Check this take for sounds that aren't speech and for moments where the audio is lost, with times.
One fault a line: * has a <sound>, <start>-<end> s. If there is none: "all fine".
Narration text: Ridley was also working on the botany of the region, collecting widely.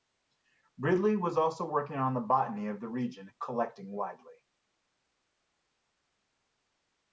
all fine